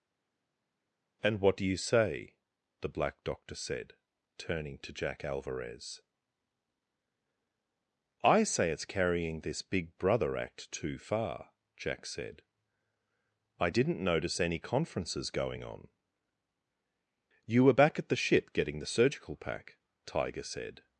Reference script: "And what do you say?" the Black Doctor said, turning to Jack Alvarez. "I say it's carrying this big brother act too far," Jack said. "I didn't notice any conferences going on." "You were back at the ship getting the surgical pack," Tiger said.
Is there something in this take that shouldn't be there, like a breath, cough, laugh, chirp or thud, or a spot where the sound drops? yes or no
no